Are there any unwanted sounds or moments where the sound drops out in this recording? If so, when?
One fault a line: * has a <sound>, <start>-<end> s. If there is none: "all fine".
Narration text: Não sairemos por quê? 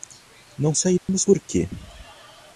* has a dropout, 1.0-1.1 s